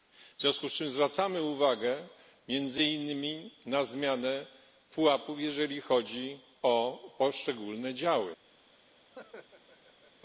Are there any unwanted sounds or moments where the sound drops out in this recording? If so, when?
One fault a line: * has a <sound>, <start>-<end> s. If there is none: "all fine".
* has a laugh, 9.1-10.1 s